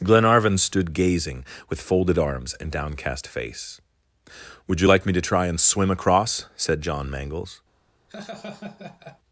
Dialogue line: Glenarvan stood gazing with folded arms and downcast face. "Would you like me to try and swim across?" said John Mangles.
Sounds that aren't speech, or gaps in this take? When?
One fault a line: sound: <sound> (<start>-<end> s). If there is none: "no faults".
sound: laugh (8.1-9.2 s)